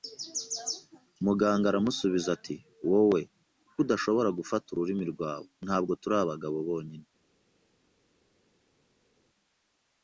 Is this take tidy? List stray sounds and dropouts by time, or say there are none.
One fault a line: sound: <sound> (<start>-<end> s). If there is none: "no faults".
no faults